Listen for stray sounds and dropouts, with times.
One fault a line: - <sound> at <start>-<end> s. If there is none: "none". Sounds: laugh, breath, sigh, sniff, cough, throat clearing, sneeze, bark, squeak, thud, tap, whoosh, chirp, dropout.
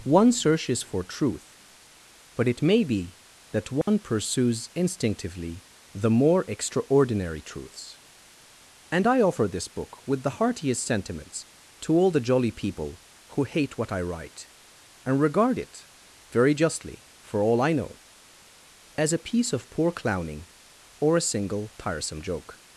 - dropout at 3.8-3.9 s